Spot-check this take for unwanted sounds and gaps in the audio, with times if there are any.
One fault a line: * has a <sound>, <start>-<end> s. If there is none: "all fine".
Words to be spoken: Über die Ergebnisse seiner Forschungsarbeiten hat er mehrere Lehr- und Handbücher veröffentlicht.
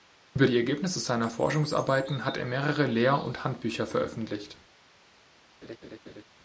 * has a laugh, 5.6-6.2 s